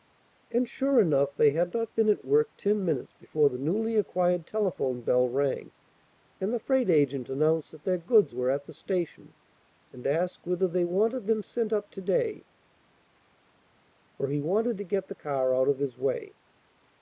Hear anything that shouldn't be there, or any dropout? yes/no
no